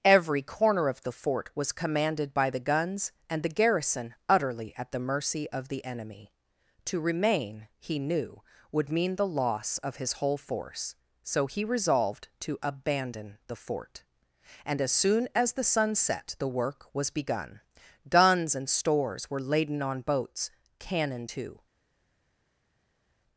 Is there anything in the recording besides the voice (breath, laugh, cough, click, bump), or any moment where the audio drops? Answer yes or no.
no